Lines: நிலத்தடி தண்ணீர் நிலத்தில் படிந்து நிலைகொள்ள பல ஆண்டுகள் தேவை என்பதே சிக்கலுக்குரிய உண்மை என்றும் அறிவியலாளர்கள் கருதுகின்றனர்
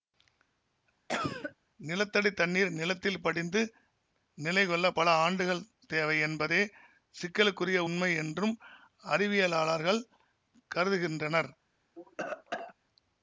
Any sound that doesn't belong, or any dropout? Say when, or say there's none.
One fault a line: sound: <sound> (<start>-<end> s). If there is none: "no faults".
sound: cough (1.1-1.6 s)
sound: cough (11.9-12.7 s)